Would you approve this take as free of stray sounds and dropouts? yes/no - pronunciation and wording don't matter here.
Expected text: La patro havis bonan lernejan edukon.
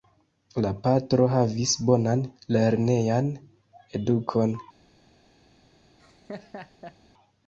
no